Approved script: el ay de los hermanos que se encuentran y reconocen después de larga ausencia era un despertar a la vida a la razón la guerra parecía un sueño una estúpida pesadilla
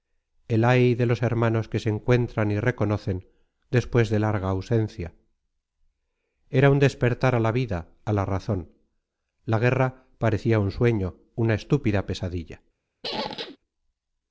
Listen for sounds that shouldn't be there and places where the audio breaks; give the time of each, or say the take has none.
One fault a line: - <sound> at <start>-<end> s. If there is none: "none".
- squeak at 13.0-13.6 s